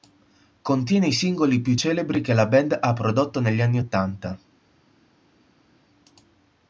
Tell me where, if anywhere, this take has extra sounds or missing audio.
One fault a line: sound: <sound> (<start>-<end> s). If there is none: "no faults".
no faults